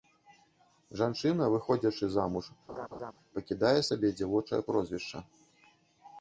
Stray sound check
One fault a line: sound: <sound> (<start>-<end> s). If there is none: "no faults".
sound: laugh (2.7-3.1 s)